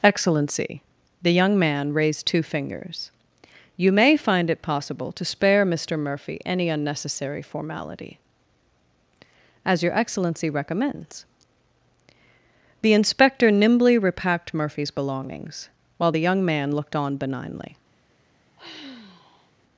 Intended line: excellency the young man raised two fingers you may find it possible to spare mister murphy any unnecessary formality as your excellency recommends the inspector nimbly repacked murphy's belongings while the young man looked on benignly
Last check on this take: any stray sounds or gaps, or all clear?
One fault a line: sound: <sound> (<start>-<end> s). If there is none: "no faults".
sound: sigh (18.6-19.5 s)